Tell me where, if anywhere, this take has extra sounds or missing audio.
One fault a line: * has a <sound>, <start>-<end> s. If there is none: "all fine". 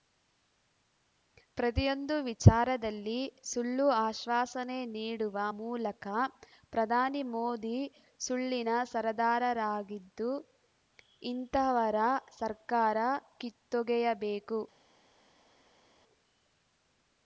all fine